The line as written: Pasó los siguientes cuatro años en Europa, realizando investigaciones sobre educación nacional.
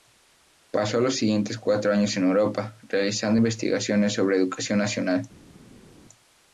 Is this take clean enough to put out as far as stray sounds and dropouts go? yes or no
yes